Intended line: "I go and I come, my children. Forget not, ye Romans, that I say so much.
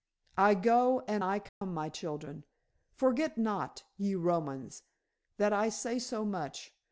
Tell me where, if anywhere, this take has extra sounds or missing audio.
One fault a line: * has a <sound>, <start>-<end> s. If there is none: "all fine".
* has a dropout, 1.5-1.6 s